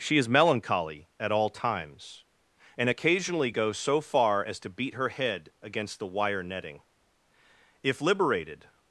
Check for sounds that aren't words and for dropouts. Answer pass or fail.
pass